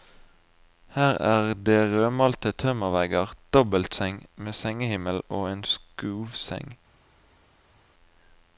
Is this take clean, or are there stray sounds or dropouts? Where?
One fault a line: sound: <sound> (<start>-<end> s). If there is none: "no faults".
no faults